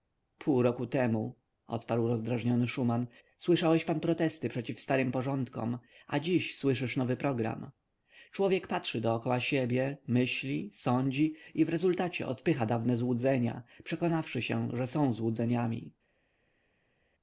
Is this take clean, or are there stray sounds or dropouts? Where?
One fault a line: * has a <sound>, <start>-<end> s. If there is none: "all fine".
all fine